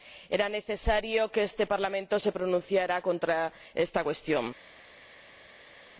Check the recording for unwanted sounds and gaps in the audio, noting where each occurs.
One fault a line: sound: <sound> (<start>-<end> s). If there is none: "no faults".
no faults